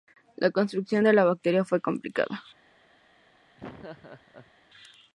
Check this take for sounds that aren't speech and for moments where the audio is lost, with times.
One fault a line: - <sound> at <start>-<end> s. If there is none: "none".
- laugh at 3.6-4.5 s